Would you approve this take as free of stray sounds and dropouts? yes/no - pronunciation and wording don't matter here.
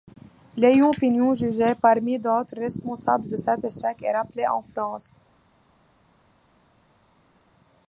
yes